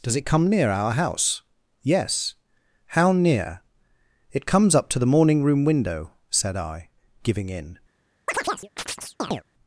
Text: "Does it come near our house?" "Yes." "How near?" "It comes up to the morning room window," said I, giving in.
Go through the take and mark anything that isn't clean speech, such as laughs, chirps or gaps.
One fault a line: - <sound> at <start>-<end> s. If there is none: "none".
- chirp at 8.3-9.4 s